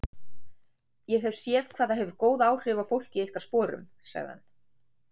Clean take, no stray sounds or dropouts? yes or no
yes